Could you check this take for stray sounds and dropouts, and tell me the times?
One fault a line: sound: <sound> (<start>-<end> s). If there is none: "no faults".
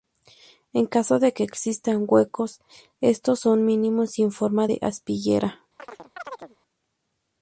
sound: chirp (5.8-6.6 s)